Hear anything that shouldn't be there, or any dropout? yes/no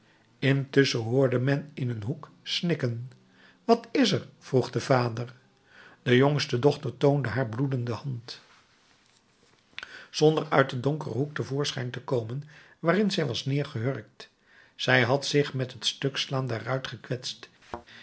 yes